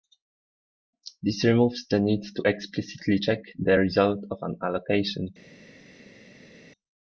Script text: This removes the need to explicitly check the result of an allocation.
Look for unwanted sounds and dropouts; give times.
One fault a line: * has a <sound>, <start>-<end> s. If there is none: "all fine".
all fine